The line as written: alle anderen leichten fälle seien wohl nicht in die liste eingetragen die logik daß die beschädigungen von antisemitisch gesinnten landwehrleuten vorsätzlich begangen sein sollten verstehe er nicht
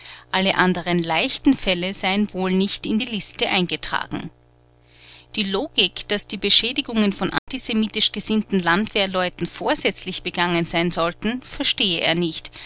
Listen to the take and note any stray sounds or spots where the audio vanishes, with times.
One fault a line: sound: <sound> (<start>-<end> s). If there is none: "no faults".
sound: dropout (7.4-7.5 s)